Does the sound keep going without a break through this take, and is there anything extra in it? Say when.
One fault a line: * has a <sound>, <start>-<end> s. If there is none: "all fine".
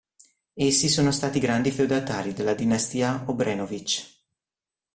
all fine